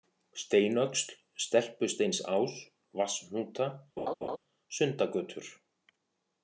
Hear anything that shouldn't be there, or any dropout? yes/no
yes